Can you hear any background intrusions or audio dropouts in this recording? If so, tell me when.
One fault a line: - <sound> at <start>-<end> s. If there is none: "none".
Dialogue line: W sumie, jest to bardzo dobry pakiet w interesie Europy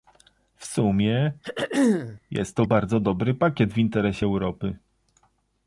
- throat clearing at 1.4-2.2 s